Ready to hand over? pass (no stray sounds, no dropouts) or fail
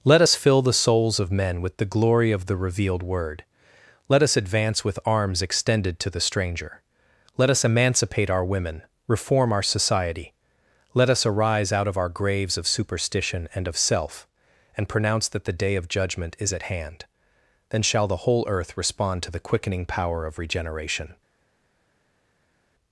pass